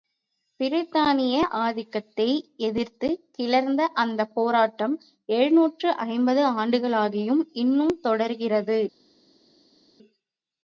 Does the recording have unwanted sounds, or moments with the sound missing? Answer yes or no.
no